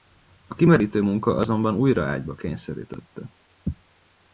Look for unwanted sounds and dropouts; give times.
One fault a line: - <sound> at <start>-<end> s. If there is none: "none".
none